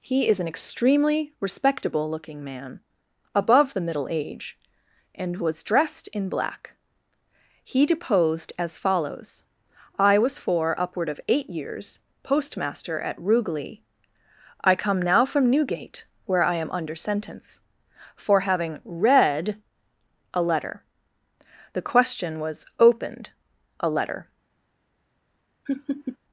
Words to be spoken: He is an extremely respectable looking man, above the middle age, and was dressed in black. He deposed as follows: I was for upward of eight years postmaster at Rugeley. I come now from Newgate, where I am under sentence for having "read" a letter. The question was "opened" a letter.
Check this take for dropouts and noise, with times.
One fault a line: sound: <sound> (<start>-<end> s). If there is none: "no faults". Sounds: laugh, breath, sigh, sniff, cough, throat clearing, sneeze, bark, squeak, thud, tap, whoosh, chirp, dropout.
sound: laugh (25.7-26.2 s)